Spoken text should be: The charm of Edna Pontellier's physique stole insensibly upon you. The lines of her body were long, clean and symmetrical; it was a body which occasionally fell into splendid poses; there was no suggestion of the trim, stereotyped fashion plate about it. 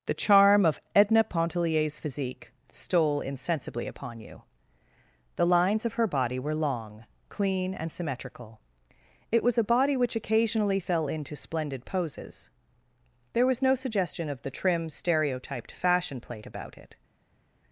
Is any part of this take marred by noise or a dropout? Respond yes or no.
no